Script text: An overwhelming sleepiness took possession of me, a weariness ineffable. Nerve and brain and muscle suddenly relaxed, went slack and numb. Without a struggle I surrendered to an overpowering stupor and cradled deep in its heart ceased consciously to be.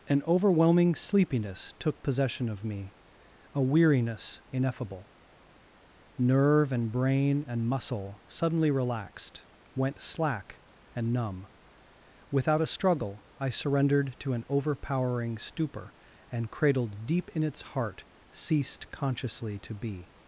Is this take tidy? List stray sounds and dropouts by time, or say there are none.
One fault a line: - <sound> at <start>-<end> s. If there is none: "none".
none